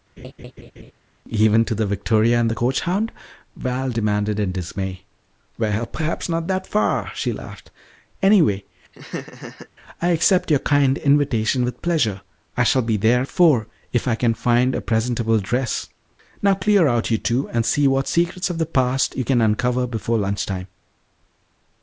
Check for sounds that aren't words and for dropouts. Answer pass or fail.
fail